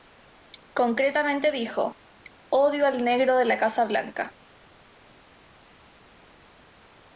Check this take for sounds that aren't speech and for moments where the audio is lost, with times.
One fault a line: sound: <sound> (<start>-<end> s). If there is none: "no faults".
no faults